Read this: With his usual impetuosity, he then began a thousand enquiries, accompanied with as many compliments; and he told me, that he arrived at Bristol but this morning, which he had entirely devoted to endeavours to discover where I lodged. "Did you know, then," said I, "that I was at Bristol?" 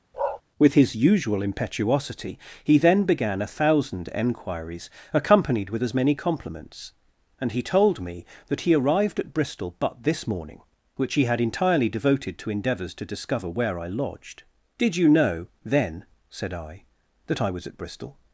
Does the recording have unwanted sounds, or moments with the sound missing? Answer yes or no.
yes